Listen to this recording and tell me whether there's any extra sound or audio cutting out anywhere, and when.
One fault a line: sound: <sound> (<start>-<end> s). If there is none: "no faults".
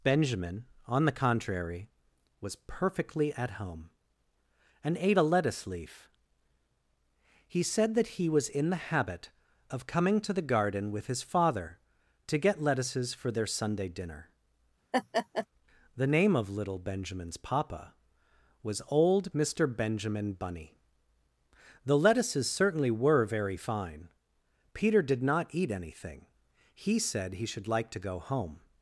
sound: laugh (14.9-15.5 s)